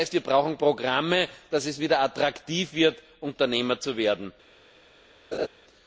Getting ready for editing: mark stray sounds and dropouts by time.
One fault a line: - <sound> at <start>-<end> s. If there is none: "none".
- laugh at 5.3-5.5 s